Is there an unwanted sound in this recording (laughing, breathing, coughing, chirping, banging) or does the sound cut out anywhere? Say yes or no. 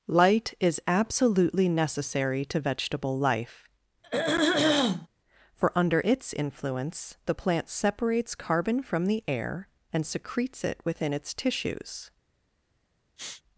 yes